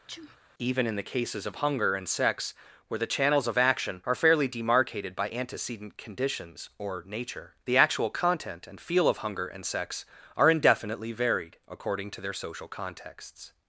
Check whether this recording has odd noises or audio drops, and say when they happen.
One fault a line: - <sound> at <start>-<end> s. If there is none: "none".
- sneeze at 0.1-0.4 s